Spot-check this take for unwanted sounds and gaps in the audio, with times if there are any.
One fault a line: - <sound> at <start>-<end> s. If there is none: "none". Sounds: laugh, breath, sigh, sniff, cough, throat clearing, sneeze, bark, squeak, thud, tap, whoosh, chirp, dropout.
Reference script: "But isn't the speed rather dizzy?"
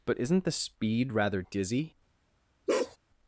- bark at 2.7-3.0 s